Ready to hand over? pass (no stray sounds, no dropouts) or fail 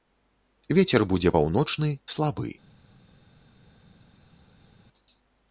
pass